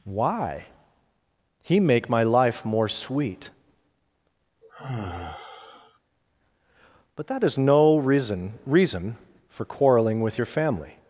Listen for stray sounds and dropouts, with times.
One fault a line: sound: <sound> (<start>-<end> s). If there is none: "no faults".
sound: sigh (4.6-6.0 s)